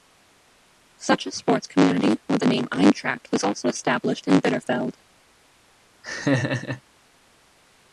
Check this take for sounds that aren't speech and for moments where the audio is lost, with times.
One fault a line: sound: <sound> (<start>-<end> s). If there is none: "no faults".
sound: laugh (6.0-6.8 s)